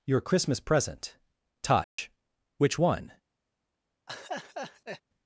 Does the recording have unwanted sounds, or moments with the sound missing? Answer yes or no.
yes